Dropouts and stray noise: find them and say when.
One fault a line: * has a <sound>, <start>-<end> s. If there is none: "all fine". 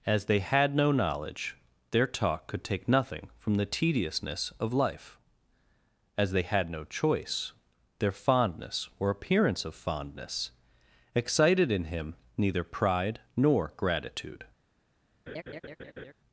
* has a laugh, 15.3-16.1 s